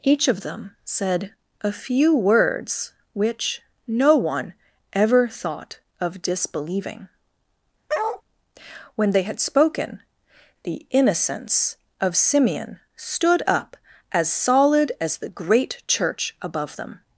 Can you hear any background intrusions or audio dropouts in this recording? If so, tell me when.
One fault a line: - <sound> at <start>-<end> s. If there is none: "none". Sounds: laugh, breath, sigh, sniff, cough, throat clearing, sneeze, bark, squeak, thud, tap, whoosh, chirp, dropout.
- bark at 7.9-8.2 s